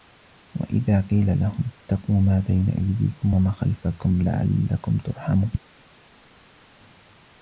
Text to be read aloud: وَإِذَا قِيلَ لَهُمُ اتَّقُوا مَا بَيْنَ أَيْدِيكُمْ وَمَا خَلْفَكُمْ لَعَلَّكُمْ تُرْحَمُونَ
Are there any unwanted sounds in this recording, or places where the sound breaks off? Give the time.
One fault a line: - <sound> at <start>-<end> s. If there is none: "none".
none